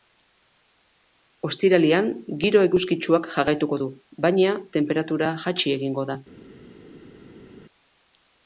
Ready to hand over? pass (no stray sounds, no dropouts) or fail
pass